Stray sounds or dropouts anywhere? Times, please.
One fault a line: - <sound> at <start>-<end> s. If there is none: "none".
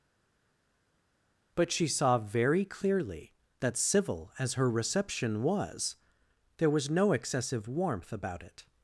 none